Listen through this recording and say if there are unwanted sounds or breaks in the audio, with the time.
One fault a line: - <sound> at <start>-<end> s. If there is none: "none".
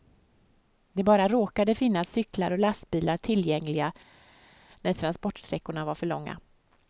none